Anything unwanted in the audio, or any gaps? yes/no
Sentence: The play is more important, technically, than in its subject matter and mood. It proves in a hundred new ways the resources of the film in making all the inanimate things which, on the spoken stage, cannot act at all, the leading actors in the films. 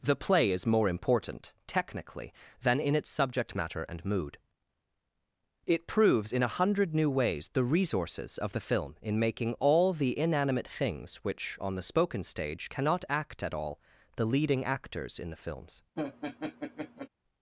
yes